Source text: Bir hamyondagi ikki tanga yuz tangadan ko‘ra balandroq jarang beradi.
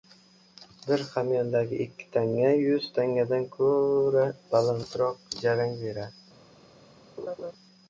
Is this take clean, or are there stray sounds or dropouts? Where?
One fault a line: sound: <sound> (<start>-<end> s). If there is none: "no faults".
sound: laugh (7.2-7.5 s)